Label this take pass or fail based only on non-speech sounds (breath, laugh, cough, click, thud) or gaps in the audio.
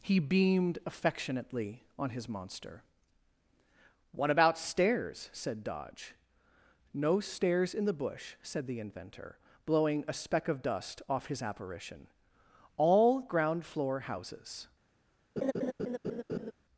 fail